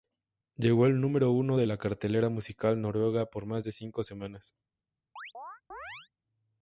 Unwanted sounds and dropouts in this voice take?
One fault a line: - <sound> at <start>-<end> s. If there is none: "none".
- chirp at 5.2-6.1 s